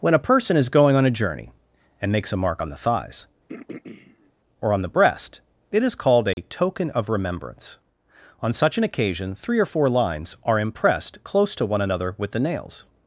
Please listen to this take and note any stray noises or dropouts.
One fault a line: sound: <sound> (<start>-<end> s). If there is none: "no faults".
sound: throat clearing (3.5-4.3 s)
sound: dropout (6.3-6.4 s)